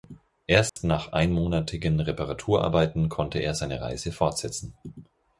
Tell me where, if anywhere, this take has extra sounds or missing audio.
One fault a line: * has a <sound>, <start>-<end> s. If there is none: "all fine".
* has a dropout, 0.7-0.8 s